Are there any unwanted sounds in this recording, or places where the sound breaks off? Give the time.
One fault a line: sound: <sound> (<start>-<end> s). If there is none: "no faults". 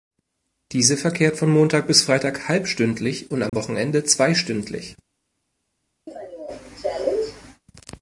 sound: dropout (3.5-3.5 s)
sound: cough (6.1-7.6 s)